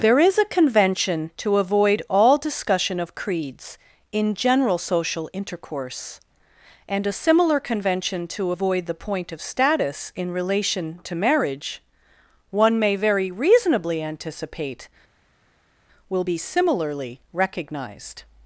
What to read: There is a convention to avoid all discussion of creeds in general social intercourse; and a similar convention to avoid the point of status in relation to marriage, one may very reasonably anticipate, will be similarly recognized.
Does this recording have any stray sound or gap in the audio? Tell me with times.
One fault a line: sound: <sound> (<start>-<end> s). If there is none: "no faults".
no faults